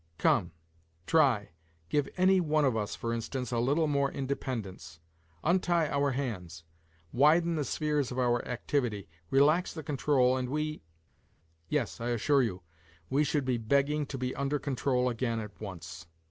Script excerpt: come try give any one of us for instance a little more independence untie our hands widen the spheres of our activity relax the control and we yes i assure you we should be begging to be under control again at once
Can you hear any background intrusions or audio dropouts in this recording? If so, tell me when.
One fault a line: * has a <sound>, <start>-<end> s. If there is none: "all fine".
all fine